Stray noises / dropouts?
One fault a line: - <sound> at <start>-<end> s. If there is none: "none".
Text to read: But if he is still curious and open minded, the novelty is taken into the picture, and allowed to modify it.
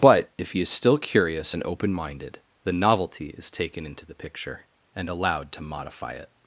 none